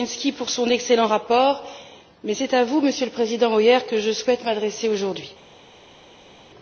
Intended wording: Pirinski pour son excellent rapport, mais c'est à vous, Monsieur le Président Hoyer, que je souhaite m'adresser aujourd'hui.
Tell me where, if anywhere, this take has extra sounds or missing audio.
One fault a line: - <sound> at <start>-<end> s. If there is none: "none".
none